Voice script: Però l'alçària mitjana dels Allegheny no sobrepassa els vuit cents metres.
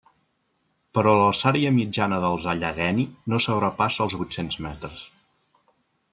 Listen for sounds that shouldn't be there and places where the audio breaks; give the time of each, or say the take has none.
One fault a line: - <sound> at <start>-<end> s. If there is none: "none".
none